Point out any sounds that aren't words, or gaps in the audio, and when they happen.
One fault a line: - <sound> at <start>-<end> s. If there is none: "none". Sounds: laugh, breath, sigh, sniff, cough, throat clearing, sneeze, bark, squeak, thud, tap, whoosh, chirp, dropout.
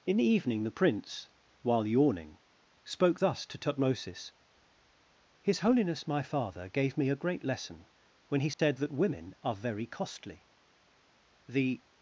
- dropout at 8.5-8.6 s